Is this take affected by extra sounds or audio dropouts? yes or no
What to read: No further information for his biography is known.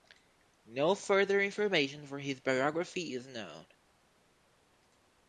no